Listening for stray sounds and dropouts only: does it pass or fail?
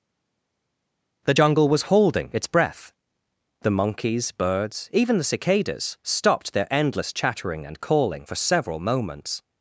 pass